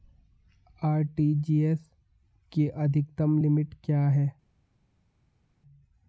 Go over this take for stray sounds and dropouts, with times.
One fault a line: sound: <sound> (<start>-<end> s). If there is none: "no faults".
no faults